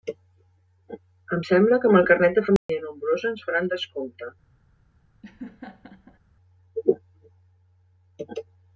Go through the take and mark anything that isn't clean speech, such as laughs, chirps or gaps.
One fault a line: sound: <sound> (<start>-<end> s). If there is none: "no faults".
sound: dropout (2.6-2.7 s)
sound: laugh (5.2-6.2 s)